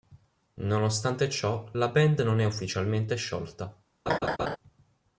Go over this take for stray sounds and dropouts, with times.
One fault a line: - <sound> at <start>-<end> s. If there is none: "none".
- laugh at 4.1-4.6 s